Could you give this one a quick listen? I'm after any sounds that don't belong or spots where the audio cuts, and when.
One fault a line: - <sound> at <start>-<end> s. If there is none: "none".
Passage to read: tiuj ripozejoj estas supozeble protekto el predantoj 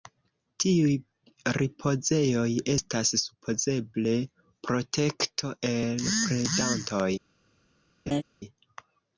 - laugh at 8.1-8.2 s